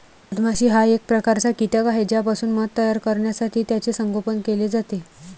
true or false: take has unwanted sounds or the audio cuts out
false